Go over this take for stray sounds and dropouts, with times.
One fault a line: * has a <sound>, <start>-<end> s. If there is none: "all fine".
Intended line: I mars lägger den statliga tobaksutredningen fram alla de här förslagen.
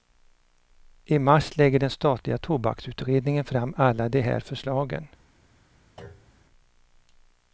* has a thud, 6.0-6.4 s